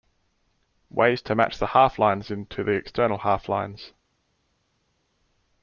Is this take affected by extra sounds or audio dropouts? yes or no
no